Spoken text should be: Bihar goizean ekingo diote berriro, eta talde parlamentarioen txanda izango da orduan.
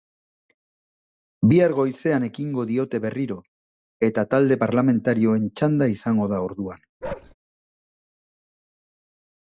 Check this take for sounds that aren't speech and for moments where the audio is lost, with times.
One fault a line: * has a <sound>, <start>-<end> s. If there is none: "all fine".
* has a bark, 7.0-7.3 s